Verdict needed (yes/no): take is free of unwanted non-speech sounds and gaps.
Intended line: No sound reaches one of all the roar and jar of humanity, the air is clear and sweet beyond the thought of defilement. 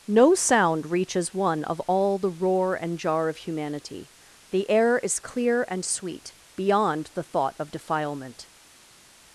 yes